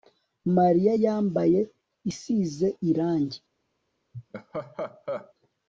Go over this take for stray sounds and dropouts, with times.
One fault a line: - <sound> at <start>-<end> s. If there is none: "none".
- laugh at 4.1-5.3 s